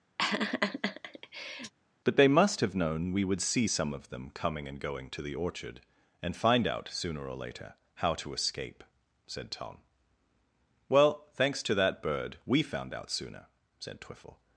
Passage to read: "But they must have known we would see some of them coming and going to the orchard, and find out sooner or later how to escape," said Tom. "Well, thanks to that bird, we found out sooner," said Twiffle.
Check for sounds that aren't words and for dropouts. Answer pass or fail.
fail